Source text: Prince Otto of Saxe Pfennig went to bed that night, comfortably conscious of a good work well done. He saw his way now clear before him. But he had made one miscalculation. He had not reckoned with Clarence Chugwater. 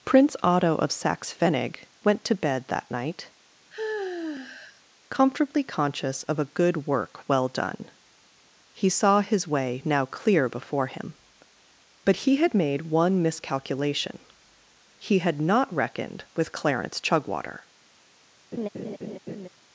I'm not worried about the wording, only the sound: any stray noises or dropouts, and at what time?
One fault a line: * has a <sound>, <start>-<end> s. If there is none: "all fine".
* has a sigh, 3.7-4.8 s
* has a laugh, 18.5-19.5 s